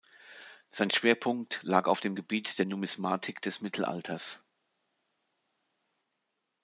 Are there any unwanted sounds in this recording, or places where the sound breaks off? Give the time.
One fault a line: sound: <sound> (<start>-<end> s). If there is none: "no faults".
no faults